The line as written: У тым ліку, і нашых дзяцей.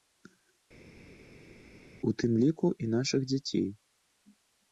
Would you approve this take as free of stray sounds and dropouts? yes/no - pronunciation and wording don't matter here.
yes